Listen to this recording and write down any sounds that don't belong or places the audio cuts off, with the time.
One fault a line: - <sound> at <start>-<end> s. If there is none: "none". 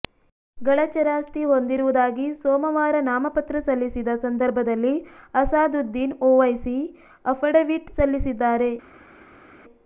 none